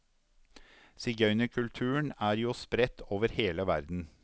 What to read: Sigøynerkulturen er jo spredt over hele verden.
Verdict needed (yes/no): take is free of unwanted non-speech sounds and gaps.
yes